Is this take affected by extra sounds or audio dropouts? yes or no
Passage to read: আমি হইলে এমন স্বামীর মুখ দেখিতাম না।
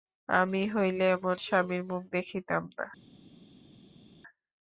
no